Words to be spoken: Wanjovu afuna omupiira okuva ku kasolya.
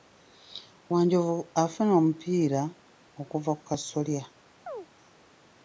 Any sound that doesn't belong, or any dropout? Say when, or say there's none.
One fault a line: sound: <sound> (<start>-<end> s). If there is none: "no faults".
sound: chirp (4.7-4.9 s)